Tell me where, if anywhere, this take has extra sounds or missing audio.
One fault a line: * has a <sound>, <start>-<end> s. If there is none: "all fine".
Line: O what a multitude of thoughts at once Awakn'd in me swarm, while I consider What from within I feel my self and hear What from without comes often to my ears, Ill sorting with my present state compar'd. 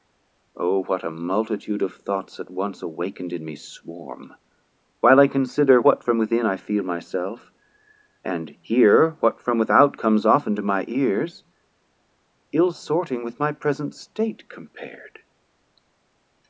all fine